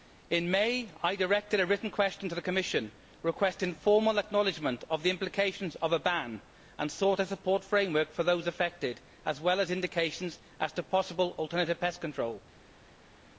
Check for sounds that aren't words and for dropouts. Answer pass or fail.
pass